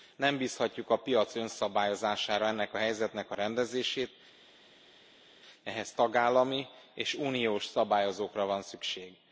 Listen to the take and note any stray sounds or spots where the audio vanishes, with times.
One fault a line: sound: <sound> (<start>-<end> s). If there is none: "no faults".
no faults